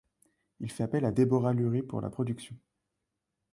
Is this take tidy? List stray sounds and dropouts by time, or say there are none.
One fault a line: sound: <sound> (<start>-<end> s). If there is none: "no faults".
no faults